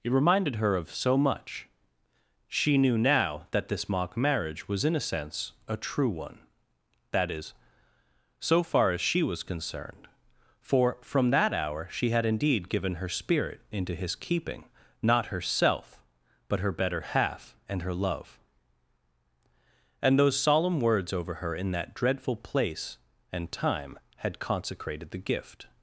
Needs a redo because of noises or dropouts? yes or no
no